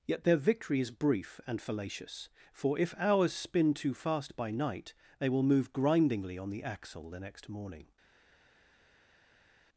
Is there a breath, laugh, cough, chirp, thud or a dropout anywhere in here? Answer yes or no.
no